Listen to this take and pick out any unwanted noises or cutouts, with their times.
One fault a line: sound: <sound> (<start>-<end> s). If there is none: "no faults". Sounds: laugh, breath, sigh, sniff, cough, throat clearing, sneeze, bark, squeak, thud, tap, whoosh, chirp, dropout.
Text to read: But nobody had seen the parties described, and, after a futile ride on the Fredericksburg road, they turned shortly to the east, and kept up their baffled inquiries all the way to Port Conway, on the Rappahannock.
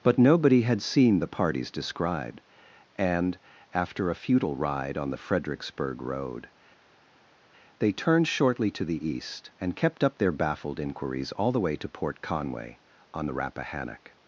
no faults